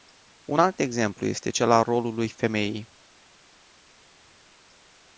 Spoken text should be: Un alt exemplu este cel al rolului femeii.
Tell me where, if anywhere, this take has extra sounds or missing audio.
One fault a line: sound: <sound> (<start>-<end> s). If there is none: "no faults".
no faults